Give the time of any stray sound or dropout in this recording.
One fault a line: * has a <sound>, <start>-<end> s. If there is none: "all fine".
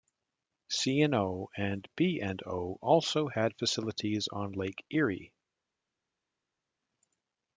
all fine